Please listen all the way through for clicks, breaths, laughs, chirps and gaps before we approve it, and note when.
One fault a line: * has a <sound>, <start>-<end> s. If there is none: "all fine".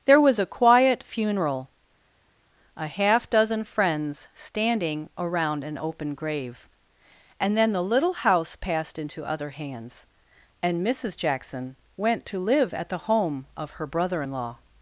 all fine